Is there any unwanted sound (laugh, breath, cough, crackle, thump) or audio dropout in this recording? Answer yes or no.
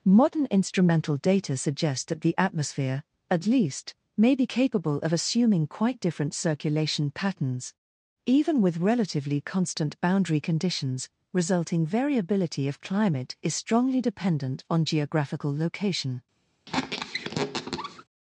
yes